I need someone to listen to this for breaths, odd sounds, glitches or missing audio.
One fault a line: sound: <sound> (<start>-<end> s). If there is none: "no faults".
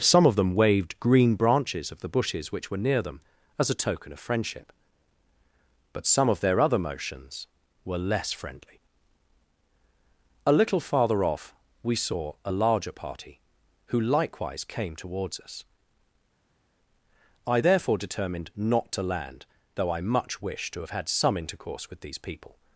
no faults